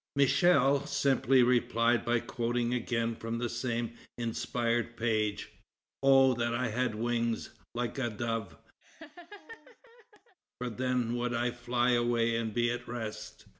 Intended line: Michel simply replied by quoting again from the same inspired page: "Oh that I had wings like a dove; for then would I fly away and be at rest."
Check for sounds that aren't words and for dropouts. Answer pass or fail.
fail